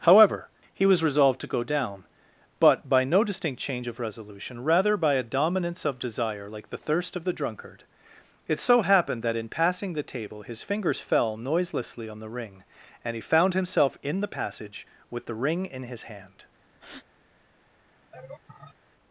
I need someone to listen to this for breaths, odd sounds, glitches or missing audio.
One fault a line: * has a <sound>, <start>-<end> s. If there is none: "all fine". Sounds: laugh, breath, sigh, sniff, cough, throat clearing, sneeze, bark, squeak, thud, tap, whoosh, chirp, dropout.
* has a breath, 16.7-17.1 s
* has a laugh, 18.1-18.8 s